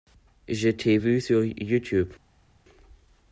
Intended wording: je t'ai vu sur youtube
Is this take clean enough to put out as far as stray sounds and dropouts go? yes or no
yes